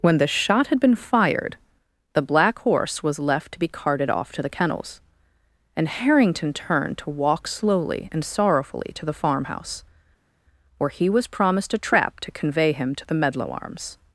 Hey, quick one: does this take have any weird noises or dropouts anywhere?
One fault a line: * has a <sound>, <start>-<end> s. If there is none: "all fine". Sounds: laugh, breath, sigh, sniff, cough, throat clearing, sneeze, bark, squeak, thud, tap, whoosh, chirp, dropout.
all fine